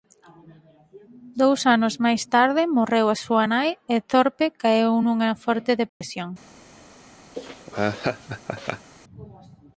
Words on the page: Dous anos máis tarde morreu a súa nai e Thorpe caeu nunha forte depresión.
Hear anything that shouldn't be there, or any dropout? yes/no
yes